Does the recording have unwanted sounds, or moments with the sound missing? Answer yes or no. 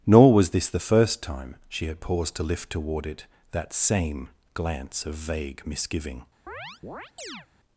yes